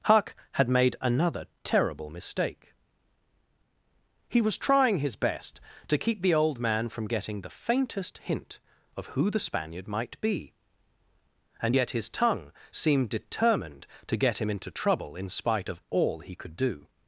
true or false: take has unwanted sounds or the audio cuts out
false